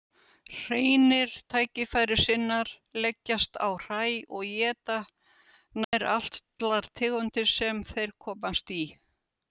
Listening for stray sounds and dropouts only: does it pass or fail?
fail